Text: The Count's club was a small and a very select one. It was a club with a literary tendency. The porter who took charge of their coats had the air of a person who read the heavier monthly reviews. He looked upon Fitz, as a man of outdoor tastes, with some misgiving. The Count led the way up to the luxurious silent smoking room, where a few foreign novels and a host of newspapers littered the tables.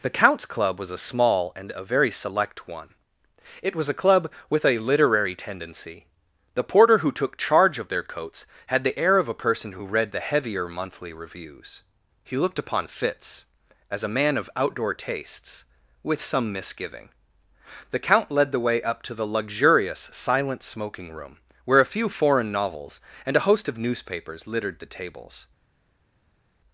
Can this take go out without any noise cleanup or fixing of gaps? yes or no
yes